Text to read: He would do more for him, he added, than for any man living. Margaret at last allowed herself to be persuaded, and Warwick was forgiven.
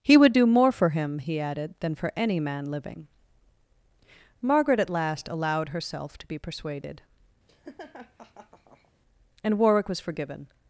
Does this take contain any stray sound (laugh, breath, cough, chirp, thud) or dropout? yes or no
yes